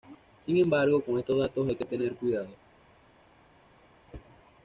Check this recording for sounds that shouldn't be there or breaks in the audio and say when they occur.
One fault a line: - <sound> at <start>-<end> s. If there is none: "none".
none